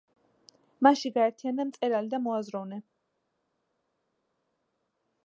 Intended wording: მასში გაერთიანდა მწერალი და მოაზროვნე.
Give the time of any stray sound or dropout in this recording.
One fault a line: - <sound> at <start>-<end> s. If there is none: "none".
none